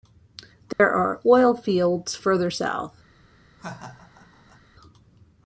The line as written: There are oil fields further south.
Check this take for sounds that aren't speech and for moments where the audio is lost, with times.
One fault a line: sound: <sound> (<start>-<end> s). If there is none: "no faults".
sound: dropout (0.7-0.8 s)
sound: laugh (3.6-4.6 s)